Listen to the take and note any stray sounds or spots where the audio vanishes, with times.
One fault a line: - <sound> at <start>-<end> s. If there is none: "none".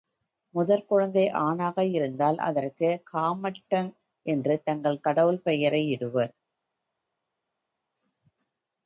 none